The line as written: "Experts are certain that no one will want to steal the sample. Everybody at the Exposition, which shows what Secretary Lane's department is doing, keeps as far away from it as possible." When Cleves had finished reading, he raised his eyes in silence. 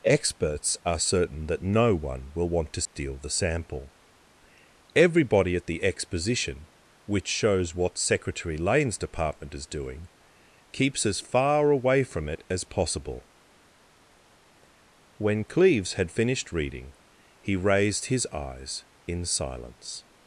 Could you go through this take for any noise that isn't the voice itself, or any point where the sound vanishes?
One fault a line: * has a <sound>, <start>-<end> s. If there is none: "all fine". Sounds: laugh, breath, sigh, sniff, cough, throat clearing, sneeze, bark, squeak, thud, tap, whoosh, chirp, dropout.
* has a dropout, 2.9-3.0 s